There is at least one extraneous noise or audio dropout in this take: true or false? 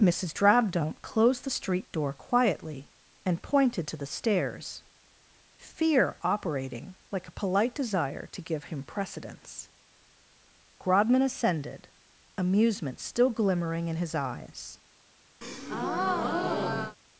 true